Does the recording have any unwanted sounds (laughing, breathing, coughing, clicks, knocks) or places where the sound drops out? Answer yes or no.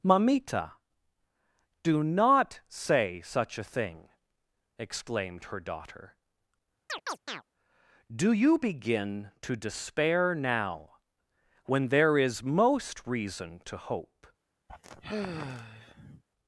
yes